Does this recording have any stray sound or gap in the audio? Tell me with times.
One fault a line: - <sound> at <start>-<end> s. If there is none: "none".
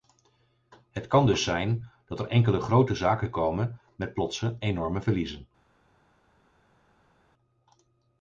none